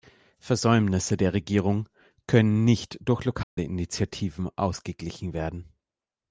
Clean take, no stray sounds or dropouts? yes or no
no